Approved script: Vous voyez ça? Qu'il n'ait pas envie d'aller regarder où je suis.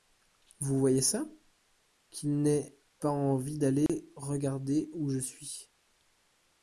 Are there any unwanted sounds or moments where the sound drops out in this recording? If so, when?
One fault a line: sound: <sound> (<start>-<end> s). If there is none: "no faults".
sound: dropout (3.9-3.9 s)